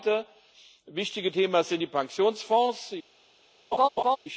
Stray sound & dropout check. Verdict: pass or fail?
fail